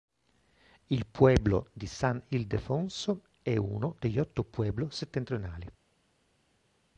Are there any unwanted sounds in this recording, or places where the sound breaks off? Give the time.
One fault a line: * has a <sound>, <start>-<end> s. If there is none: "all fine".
all fine